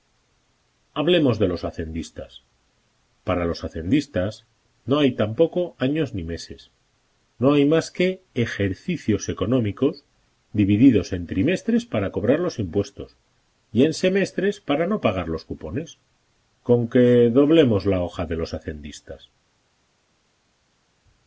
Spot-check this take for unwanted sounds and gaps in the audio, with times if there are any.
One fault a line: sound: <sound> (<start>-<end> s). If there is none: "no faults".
no faults